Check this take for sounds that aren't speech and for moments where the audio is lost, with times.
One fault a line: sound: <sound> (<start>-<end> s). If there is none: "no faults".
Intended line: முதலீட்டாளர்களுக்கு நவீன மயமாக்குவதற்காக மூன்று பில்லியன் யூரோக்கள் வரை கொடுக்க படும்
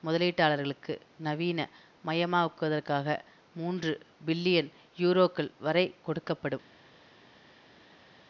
no faults